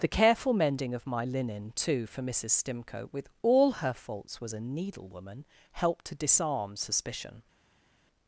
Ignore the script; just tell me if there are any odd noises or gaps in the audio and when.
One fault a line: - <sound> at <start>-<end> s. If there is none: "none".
none